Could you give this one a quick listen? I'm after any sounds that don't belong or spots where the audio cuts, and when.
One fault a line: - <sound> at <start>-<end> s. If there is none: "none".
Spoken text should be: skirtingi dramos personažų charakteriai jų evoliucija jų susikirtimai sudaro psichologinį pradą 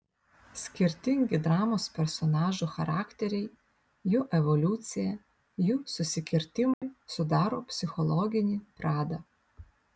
- dropout at 6.7-6.8 s